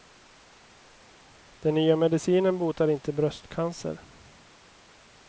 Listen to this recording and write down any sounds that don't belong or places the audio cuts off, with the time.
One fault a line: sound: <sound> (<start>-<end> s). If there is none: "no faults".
no faults